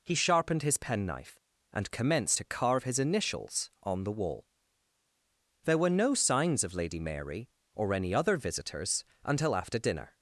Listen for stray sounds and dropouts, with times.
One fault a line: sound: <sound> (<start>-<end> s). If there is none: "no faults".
no faults